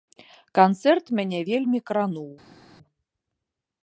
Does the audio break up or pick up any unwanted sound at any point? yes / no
no